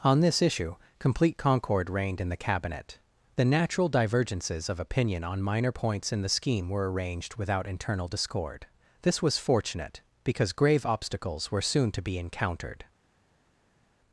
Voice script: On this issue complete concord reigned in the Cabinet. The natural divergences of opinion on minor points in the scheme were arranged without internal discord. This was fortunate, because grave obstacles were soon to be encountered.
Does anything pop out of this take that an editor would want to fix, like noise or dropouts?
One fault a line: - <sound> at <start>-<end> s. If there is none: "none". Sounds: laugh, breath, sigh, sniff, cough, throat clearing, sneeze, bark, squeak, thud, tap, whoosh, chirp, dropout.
none